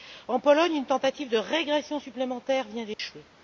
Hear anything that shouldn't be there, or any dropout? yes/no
yes